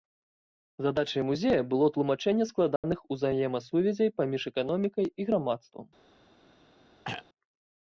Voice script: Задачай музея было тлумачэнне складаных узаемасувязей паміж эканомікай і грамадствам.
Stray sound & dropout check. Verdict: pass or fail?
fail